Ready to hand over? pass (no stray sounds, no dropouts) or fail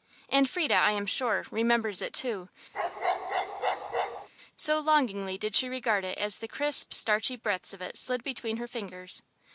fail